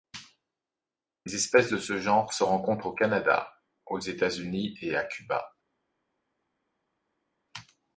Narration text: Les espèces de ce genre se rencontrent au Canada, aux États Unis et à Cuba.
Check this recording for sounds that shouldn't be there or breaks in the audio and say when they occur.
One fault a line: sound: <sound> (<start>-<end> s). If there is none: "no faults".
no faults